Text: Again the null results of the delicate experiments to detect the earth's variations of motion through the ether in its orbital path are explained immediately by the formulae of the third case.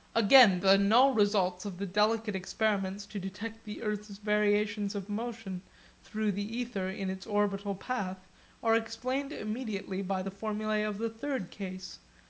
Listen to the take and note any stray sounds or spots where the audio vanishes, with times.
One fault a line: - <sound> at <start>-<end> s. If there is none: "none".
none